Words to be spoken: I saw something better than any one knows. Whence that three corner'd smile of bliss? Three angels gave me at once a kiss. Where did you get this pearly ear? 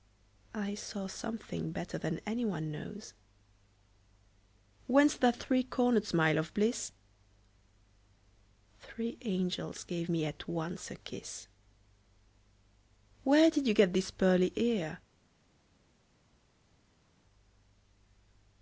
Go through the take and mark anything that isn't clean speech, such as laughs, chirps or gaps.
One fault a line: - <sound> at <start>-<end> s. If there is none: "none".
none